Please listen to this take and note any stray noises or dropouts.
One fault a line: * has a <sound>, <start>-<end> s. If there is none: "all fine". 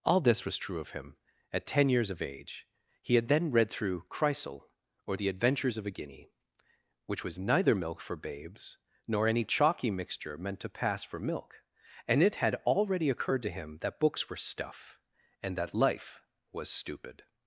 all fine